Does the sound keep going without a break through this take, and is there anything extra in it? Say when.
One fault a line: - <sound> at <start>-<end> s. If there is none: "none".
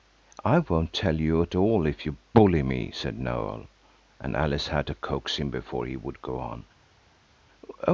none